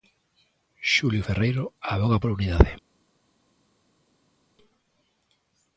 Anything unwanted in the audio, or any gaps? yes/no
no